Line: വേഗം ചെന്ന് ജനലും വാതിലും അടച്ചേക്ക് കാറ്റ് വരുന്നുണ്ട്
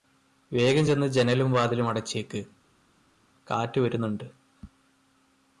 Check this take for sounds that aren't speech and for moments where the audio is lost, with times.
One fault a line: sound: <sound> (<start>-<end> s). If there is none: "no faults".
no faults